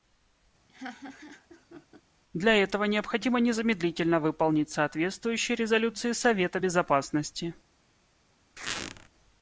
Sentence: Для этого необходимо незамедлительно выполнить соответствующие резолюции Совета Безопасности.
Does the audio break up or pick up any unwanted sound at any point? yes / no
yes